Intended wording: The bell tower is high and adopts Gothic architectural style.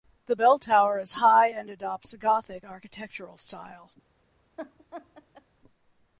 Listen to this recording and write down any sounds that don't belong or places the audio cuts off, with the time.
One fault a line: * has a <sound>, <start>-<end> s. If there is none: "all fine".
* has a laugh, 4.6-5.5 s